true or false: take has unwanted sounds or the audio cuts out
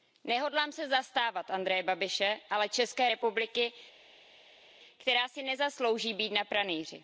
false